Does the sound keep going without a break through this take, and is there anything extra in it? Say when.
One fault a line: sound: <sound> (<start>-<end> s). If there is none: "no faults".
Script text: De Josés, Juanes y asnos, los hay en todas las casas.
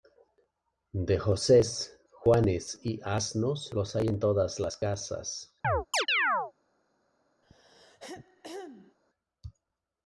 sound: chirp (5.6-6.5 s)
sound: throat clearing (7.4-9.0 s)